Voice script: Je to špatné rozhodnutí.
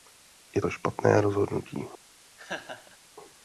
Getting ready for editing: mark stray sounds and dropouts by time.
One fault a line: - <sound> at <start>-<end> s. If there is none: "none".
- laugh at 2.4-3.0 s